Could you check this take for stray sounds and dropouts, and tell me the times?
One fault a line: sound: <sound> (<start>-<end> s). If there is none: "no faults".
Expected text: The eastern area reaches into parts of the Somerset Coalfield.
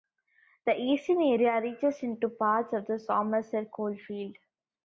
no faults